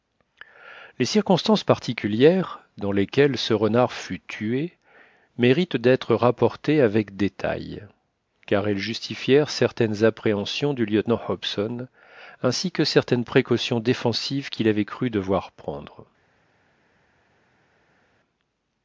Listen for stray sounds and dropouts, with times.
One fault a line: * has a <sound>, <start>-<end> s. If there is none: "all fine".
all fine